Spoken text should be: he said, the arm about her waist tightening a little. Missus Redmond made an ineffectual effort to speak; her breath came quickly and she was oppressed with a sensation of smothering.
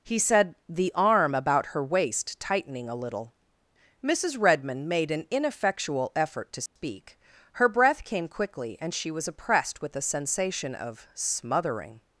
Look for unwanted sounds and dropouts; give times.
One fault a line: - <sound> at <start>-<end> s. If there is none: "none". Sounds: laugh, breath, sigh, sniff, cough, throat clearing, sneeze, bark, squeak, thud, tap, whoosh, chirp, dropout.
- dropout at 6.7-6.8 s